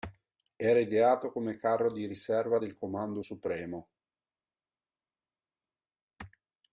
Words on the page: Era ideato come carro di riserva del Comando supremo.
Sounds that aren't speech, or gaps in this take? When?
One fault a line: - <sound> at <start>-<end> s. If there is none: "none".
none